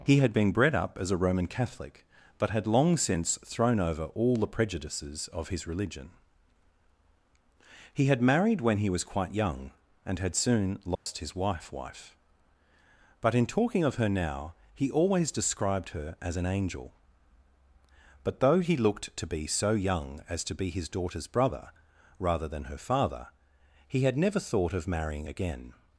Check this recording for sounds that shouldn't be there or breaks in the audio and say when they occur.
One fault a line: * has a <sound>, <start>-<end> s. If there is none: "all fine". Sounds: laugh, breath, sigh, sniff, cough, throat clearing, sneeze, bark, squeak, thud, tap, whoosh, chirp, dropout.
* has a dropout, 10.9-11.1 s